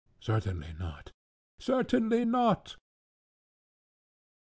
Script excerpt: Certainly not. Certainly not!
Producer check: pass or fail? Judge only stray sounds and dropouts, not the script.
pass